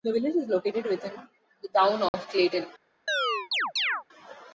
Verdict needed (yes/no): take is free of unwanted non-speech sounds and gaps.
no